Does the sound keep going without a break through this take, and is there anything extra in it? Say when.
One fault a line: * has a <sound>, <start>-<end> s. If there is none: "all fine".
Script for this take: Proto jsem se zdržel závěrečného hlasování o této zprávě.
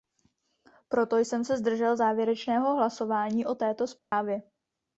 * has a dropout, 4.0-4.1 s